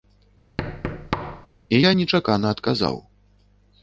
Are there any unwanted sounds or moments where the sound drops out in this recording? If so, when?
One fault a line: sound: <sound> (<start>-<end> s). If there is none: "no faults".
sound: thud (0.6-1.5 s)